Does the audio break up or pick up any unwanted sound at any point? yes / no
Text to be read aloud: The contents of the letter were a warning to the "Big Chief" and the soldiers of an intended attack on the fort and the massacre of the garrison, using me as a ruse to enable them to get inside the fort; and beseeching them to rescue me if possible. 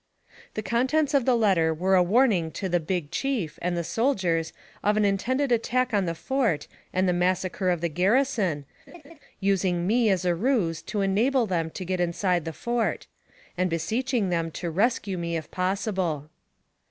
yes